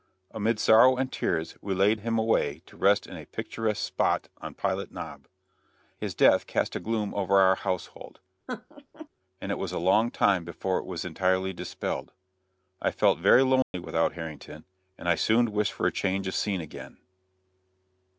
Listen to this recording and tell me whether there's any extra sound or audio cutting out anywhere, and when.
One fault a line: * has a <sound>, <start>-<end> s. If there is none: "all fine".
* has a laugh, 8.5-9.1 s
* has a dropout, 13.6-13.7 s